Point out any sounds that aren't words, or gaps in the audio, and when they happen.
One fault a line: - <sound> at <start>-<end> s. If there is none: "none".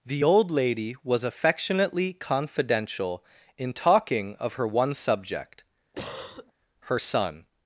- cough at 5.9-6.5 s